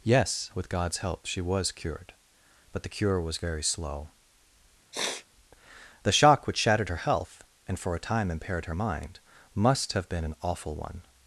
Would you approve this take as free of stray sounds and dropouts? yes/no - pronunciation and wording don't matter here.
no